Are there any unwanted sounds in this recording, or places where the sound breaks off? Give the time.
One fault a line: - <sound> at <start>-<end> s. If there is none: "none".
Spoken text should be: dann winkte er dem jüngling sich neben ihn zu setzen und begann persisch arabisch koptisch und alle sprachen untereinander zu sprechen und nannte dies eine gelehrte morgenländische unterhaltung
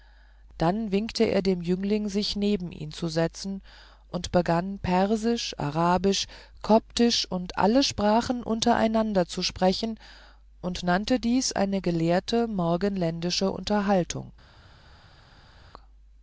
none